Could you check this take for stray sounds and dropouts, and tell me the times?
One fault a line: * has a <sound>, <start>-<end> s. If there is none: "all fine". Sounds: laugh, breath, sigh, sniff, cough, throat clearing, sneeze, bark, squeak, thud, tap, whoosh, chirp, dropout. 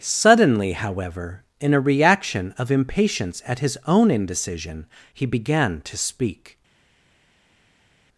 all fine